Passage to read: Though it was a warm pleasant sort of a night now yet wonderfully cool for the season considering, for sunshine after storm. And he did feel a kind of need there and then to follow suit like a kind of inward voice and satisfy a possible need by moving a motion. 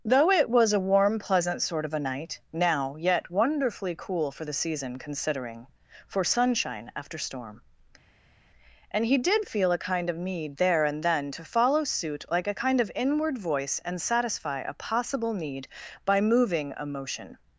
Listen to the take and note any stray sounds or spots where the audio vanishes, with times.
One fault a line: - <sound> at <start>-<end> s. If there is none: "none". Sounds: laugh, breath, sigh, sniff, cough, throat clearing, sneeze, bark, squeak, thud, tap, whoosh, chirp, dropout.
none